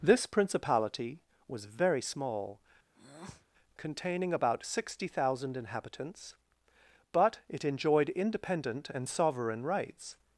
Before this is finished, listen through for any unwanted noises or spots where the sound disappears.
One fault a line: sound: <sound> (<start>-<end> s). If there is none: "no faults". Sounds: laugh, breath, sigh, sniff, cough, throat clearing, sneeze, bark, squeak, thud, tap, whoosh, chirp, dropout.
sound: breath (2.9-3.5 s)